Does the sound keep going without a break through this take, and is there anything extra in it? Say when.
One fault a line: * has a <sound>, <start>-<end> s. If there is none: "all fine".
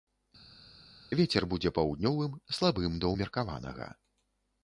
all fine